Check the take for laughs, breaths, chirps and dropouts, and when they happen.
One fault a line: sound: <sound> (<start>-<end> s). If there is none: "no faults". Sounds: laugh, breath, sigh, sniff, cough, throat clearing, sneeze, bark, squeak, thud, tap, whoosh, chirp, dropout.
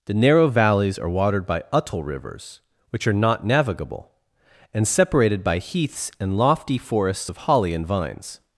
no faults